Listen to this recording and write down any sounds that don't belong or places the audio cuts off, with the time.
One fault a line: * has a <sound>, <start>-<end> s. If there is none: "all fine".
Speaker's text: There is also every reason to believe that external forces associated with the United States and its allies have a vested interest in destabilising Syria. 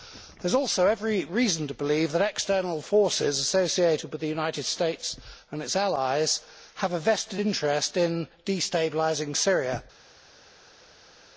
all fine